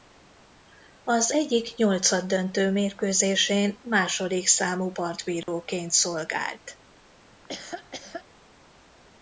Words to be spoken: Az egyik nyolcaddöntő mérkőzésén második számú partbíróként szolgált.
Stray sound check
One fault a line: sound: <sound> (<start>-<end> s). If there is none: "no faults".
sound: dropout (5.4-5.5 s)
sound: laugh (7.3-8.2 s)